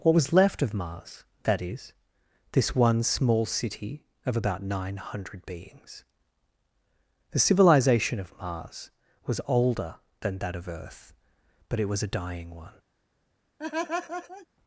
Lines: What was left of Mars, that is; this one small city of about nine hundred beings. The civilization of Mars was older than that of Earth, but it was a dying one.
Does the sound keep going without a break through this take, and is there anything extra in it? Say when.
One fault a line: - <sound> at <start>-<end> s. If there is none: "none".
- laugh at 13.6-14.5 s